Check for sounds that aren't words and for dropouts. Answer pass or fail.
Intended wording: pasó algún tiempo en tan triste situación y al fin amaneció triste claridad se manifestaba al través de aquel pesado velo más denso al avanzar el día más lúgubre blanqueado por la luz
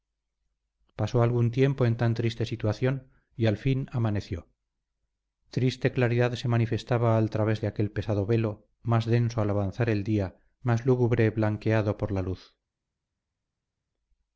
pass